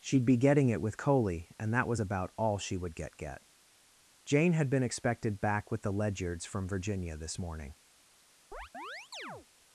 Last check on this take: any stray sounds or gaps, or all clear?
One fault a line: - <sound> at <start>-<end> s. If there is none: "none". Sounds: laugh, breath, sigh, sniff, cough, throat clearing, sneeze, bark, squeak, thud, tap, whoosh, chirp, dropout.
- chirp at 8.5-9.5 s